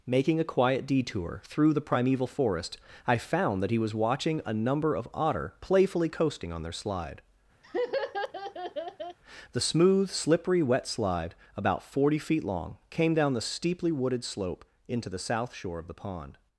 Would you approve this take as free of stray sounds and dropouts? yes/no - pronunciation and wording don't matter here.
no